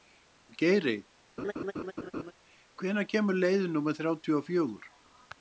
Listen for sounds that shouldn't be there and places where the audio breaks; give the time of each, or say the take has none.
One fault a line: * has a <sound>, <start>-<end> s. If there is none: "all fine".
* has a laugh, 1.4-2.3 s